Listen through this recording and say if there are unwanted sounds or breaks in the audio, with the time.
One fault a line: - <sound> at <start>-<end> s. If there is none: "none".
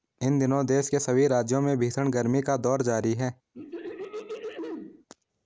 - throat clearing at 3.5-5.1 s